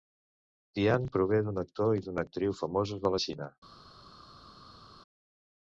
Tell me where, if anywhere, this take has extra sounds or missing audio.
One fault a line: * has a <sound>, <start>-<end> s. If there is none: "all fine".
all fine